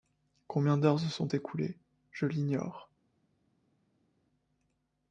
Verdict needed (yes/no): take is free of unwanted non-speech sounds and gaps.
yes